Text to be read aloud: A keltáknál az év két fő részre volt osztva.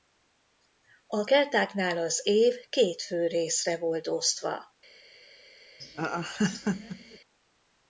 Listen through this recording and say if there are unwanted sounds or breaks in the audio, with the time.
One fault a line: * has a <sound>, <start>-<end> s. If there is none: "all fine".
* has a laugh, 5.8-7.2 s